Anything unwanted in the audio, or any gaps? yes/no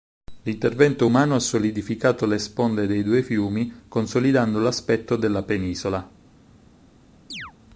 yes